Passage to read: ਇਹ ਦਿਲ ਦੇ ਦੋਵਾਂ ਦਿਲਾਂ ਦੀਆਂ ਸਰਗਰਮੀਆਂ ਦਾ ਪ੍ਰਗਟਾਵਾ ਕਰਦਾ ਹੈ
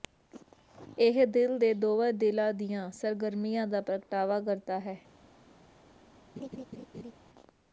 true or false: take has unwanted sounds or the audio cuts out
true